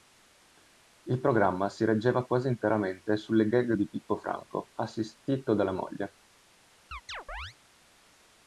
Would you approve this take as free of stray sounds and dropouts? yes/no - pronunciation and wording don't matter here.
no